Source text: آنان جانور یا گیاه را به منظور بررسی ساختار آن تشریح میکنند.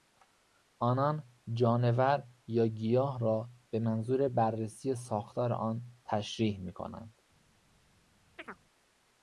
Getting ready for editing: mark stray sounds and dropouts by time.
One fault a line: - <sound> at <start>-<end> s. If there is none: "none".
- chirp at 8.4-8.6 s